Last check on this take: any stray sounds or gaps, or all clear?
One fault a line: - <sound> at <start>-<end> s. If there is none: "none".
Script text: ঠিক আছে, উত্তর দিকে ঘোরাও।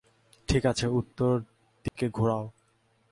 - dropout at 1.9-2.0 s